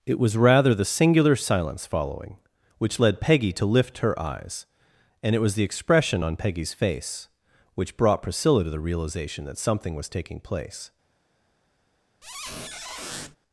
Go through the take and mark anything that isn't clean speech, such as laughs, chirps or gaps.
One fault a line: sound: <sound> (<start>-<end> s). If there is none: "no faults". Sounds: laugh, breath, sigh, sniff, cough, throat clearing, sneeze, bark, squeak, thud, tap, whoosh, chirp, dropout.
sound: squeak (12.2-13.4 s)